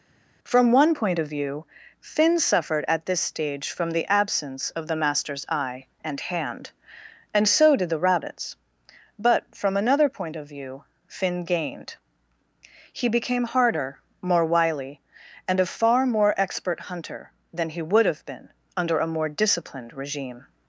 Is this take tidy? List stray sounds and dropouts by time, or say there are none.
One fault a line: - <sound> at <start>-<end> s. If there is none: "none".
none